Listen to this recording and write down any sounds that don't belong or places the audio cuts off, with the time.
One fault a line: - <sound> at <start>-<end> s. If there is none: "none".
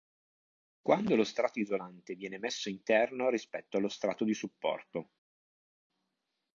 none